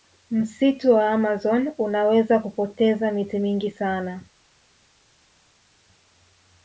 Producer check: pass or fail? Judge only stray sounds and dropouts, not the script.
pass